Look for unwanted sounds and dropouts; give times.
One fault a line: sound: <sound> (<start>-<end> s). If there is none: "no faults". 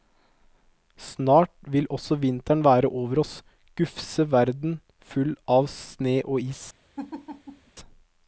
sound: laugh (7.0-7.7 s)